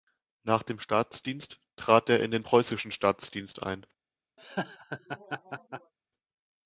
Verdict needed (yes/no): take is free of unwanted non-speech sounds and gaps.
no